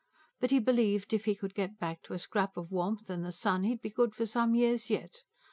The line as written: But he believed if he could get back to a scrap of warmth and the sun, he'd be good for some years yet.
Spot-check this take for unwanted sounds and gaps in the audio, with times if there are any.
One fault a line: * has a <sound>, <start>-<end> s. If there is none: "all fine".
all fine